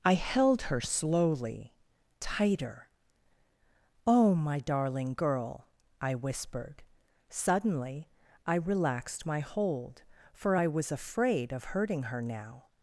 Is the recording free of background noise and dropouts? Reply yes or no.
yes